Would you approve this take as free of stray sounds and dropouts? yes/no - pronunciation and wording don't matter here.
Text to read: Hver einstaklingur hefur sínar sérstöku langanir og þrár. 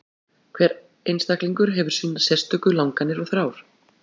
yes